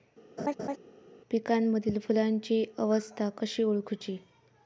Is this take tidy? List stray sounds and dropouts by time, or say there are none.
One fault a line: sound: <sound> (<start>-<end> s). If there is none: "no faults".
sound: laugh (0.4-0.8 s)